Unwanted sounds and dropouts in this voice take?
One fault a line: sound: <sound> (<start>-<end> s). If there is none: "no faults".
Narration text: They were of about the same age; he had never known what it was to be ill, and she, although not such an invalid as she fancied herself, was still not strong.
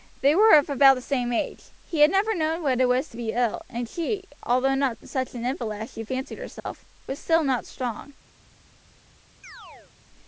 sound: dropout (6.6-6.7 s)
sound: chirp (9.4-9.9 s)